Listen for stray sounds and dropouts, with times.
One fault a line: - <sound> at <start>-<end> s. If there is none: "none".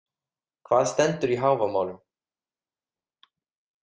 none